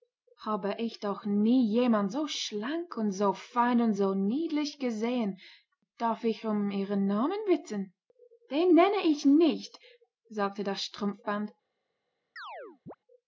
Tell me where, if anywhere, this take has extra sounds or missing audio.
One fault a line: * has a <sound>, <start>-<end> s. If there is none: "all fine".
* has a chirp, 12.4-13.0 s